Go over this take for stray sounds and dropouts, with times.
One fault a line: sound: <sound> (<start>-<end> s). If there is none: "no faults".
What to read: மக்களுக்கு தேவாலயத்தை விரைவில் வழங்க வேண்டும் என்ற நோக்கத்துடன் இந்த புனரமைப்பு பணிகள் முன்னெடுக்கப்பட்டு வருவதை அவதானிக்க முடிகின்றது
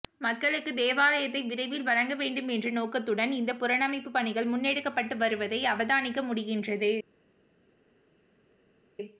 no faults